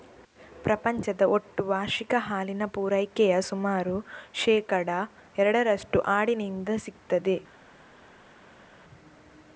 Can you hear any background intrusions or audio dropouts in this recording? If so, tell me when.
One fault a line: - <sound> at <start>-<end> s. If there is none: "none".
none